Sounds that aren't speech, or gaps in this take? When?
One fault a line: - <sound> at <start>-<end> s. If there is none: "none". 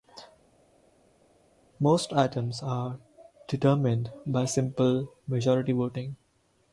none